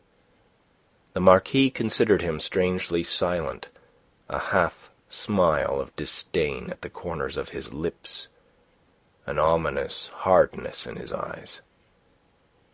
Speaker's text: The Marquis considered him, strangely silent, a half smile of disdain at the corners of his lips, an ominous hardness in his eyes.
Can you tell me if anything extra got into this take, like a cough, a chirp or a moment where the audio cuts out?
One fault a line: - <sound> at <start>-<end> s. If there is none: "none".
none